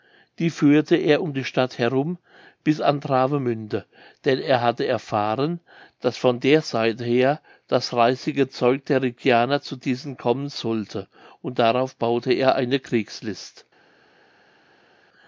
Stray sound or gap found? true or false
false